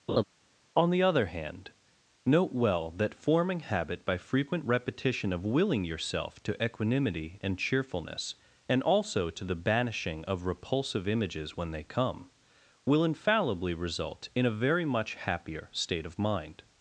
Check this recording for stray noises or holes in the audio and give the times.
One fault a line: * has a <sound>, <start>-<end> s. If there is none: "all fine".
* has a laugh, 0.1-0.2 s